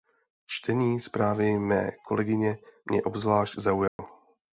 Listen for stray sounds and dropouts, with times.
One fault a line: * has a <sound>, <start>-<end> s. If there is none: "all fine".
* has a dropout, 3.9-4.0 s